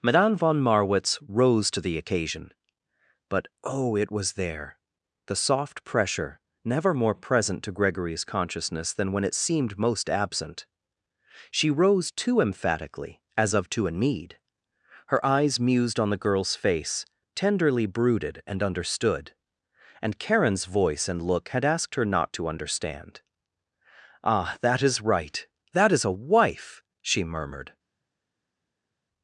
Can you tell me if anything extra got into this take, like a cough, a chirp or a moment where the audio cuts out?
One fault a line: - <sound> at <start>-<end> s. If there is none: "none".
none